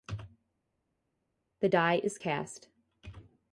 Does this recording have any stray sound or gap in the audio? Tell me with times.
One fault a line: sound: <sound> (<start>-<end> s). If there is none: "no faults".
no faults